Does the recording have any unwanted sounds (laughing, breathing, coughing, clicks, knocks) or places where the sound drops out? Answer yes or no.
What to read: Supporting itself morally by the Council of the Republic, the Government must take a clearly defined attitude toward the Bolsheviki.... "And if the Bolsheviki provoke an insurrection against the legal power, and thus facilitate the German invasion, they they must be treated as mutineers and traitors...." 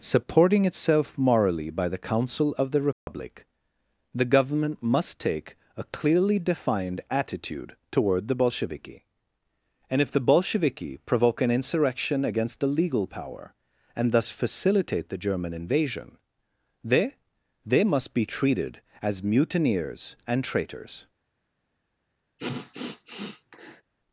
yes